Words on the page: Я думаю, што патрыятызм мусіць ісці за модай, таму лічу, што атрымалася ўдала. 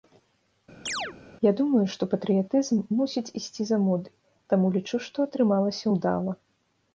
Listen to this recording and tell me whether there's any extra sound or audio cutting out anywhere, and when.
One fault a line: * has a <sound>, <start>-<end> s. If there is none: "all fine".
* has a chirp, 0.9-1.2 s